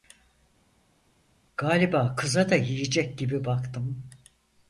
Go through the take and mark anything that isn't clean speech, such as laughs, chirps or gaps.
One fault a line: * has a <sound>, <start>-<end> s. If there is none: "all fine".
all fine